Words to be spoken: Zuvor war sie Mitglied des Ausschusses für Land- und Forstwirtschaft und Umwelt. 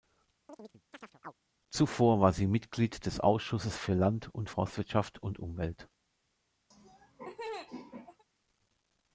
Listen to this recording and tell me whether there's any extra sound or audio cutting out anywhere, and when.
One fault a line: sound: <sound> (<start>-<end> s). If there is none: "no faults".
sound: chirp (0.5-1.3 s)
sound: laugh (6.7-8.2 s)